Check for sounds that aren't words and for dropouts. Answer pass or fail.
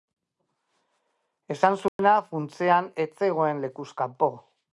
fail